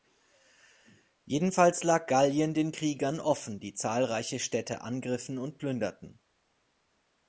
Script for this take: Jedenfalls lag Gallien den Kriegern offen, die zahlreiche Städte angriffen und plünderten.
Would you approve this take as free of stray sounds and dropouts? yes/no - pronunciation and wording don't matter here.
yes